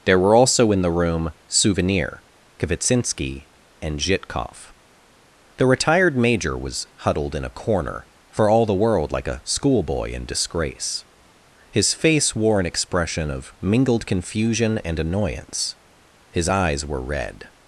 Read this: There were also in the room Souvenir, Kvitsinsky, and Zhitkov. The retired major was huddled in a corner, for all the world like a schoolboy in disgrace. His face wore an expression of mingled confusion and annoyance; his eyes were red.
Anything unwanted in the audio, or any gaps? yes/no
no